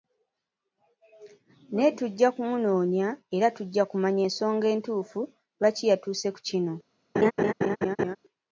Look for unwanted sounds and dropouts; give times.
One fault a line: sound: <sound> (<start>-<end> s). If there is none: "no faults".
sound: laugh (7.1-8.2 s)